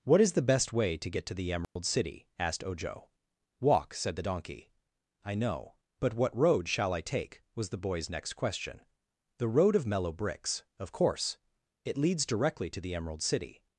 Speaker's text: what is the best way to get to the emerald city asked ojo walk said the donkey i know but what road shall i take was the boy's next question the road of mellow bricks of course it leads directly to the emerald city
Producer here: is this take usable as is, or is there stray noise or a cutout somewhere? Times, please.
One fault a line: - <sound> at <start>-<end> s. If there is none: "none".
- dropout at 1.6-1.8 s